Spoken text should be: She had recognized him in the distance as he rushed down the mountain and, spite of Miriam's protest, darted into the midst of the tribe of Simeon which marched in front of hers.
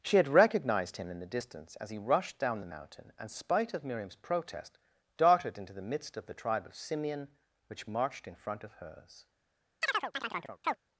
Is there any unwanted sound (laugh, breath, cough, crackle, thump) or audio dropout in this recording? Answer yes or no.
yes